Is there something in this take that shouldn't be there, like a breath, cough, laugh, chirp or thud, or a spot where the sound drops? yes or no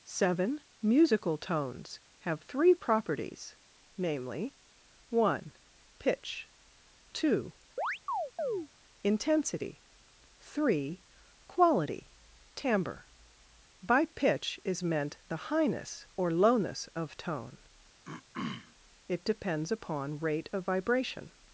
yes